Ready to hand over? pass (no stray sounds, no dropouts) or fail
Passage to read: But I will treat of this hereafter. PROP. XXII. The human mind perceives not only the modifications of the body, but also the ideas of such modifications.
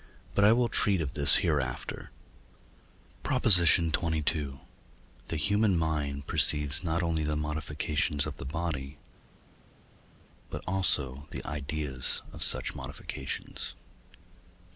pass